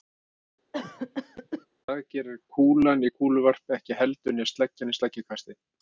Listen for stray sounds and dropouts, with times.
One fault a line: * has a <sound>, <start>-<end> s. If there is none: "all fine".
* has a cough, 0.7-1.7 s